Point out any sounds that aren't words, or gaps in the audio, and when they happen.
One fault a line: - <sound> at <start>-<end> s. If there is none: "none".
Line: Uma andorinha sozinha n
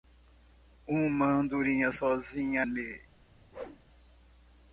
- whoosh at 3.5-3.8 s